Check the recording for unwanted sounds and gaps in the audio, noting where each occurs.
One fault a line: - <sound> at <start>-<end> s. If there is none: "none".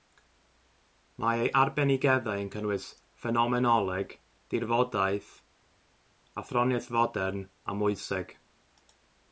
none